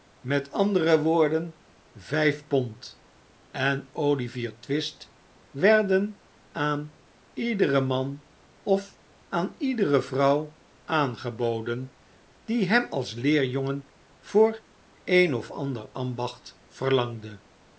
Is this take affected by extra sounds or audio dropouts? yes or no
no